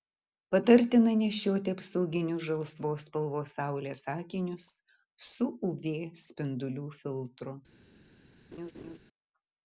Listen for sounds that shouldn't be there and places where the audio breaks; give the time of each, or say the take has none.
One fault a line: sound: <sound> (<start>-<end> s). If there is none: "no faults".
sound: laugh (8.5-9.0 s)